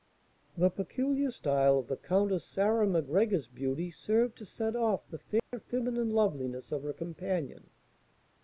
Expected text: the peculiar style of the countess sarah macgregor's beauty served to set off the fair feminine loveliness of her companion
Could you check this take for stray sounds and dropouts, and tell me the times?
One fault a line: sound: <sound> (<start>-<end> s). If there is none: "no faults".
sound: dropout (5.4-5.5 s)